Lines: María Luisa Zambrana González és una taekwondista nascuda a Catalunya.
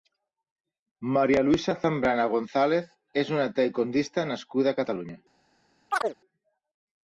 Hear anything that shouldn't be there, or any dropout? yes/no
yes